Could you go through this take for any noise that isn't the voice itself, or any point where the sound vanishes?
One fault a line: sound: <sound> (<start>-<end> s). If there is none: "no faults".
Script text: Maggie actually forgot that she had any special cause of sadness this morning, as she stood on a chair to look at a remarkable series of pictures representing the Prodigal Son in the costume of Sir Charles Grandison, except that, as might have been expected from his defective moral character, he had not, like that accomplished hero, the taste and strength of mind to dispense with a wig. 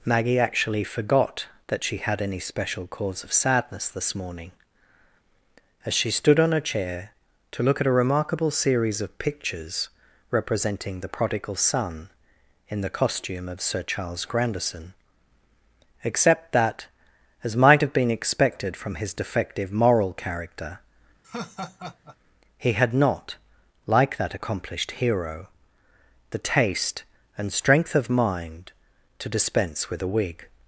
sound: laugh (21.2-22.2 s)